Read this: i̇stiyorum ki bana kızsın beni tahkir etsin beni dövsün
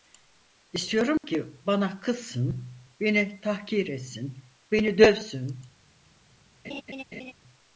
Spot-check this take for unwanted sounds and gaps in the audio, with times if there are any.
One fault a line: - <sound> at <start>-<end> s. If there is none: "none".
- dropout at 1.2-1.2 s
- laugh at 6.6-7.3 s